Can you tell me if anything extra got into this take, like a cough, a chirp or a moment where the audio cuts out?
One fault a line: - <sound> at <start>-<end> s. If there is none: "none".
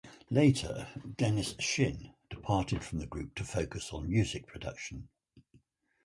none